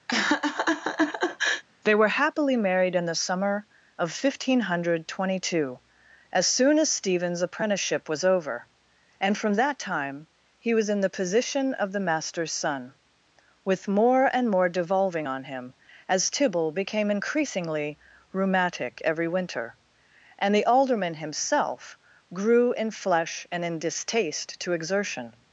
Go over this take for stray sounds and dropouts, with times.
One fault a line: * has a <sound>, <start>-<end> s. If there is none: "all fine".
* has a laugh, 0.1-1.6 s